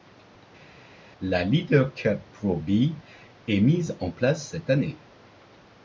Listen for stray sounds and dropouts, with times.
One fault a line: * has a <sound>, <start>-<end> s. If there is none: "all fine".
all fine